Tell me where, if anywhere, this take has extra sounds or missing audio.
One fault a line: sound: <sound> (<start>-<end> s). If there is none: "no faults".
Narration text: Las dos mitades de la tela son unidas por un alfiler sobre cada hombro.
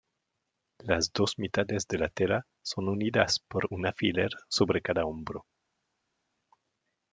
no faults